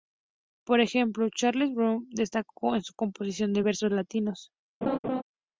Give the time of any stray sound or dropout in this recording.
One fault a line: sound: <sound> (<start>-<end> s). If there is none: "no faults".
sound: laugh (4.8-5.2 s)